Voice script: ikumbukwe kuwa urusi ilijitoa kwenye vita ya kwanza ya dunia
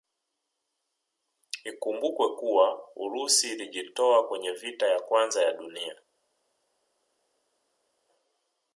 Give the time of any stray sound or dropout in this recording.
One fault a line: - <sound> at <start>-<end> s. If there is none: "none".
none